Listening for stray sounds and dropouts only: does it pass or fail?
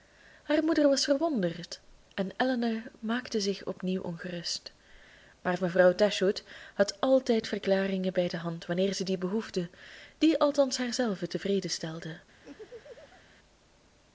fail